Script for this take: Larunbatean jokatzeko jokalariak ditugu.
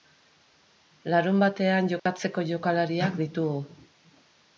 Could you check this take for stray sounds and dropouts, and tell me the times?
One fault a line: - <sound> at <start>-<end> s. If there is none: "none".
- dropout at 2.0-2.1 s